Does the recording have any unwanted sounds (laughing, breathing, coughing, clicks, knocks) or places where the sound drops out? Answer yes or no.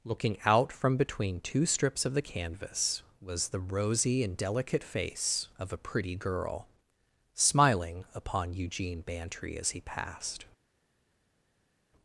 no